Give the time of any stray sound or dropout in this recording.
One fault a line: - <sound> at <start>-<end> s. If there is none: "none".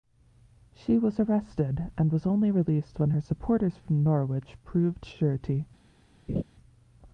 - laugh at 6.3-6.4 s